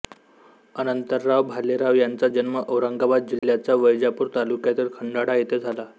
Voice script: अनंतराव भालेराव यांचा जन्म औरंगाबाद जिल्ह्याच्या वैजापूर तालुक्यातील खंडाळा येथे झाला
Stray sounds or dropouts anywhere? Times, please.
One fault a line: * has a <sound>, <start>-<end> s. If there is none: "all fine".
* has a dropout, 3.4-3.4 s